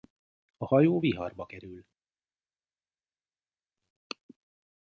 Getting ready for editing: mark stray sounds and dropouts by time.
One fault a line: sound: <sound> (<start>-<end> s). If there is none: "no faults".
no faults